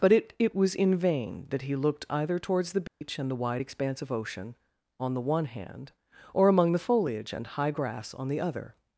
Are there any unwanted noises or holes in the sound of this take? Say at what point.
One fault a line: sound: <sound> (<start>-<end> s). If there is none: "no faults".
sound: dropout (2.9-3.0 s)